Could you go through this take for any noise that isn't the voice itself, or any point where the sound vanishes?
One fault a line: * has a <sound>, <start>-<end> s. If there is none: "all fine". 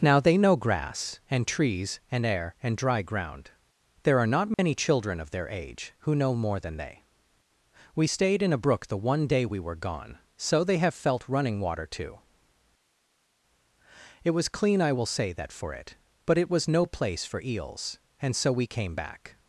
* has a dropout, 4.5-4.6 s